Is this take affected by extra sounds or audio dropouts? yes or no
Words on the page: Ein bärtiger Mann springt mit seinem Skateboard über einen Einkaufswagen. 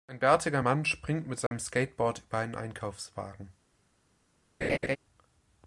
yes